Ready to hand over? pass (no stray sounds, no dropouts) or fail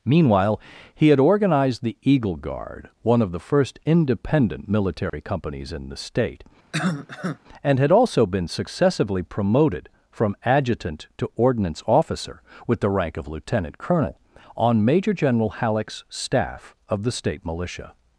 fail